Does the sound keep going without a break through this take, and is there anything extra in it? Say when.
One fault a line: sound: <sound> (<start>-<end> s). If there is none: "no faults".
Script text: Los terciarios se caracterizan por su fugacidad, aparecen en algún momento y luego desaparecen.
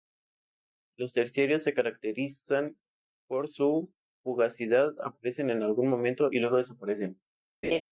sound: laugh (7.6-7.8 s)